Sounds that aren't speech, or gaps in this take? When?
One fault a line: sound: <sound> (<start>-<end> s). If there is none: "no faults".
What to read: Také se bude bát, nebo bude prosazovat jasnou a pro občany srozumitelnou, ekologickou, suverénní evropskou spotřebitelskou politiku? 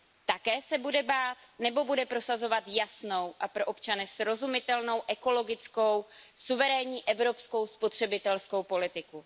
no faults